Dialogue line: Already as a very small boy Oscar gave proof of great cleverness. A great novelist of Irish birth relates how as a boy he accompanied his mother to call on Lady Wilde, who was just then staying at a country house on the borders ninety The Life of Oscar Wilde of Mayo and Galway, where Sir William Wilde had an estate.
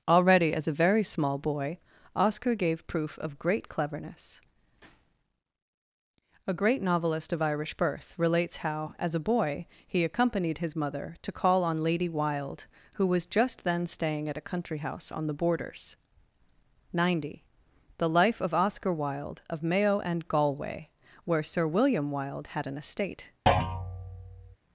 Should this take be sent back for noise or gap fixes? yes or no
yes